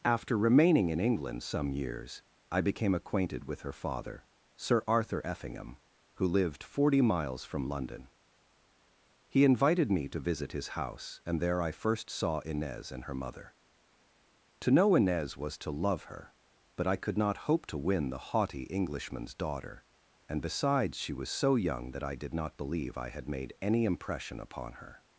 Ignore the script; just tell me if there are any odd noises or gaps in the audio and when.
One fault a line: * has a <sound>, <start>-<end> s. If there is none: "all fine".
all fine